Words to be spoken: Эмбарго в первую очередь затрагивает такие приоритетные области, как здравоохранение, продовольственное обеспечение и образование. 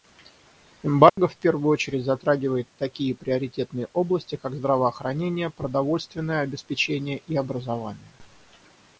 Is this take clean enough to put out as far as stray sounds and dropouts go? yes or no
no